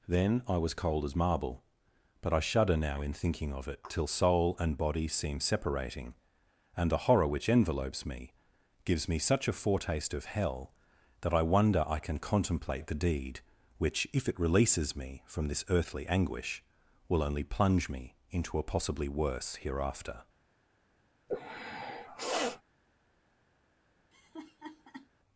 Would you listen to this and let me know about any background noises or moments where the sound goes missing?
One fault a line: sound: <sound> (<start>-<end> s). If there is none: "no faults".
sound: sniff (21.3-22.6 s)
sound: laugh (24.1-25.1 s)